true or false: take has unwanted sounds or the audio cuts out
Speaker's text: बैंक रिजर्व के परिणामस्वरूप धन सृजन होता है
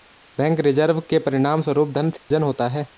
true